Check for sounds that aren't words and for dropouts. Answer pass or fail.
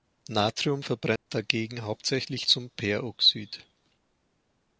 fail